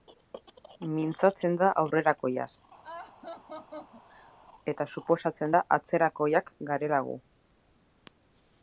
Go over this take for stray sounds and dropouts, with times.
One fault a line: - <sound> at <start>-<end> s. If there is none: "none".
- laugh at 2.8-4.3 s